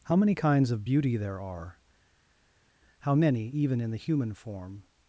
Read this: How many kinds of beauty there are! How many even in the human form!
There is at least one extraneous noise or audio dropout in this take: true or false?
false